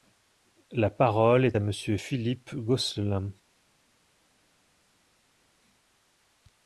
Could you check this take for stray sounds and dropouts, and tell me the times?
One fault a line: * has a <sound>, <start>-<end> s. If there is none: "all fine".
all fine